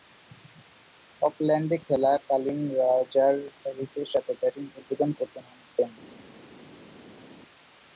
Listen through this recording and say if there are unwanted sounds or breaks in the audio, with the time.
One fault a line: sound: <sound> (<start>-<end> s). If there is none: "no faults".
no faults